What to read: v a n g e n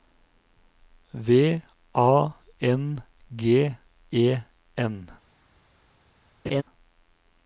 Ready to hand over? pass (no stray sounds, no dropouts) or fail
fail